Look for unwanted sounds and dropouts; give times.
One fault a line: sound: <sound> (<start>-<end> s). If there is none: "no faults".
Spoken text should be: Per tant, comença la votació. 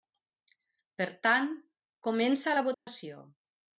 sound: dropout (2.7-2.9 s)